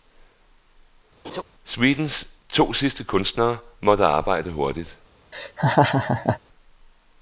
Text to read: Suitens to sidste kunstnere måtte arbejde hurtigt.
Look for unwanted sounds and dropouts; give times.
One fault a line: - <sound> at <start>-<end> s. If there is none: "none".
- laugh at 1.2-1.4 s
- laugh at 5.3-6.4 s